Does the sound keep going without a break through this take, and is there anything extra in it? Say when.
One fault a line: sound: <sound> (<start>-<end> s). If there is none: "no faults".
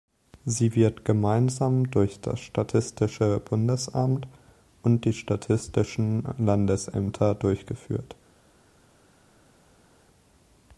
no faults